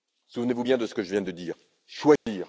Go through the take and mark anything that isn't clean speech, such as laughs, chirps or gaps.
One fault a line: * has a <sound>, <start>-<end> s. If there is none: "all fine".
* has a dropout, 2.2-2.3 s